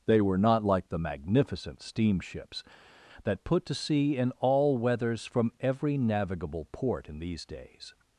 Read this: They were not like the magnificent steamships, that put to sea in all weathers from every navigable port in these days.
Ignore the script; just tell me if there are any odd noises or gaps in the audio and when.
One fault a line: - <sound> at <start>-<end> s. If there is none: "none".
none